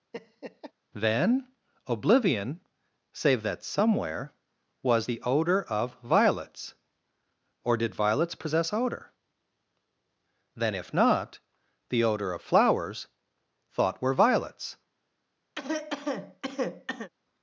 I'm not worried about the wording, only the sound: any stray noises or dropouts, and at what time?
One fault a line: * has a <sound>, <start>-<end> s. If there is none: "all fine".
* has a laugh, 0.1-0.7 s
* has a cough, 15.5-17.1 s